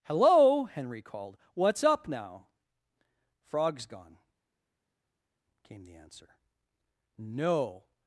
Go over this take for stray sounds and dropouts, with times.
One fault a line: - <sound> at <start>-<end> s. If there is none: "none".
none